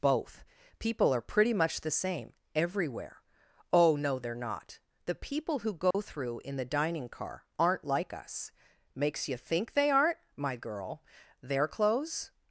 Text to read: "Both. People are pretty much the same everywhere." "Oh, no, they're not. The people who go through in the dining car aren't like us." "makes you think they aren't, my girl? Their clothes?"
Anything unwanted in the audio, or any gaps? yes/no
yes